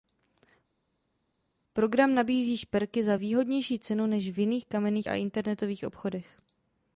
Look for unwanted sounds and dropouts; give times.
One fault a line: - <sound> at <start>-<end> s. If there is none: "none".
none